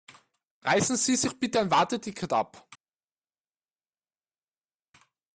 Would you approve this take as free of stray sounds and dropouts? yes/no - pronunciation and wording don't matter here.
yes